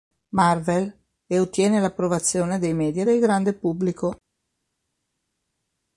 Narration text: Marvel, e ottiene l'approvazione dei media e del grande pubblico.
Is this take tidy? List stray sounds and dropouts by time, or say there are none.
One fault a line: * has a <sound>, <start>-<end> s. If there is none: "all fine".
all fine